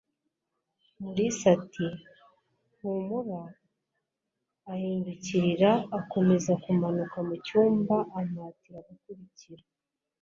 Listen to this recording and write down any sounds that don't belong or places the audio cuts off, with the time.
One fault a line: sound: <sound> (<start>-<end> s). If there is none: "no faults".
no faults